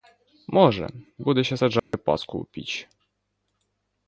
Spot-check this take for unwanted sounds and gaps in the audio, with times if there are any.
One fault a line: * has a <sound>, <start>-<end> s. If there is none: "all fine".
* has a dropout, 1.8-1.9 s